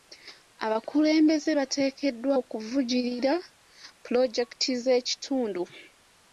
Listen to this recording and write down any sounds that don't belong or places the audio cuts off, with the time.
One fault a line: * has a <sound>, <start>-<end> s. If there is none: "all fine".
all fine